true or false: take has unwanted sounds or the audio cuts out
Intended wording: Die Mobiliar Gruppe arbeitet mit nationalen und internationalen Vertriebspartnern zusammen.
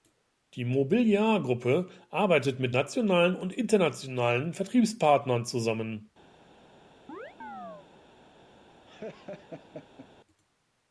true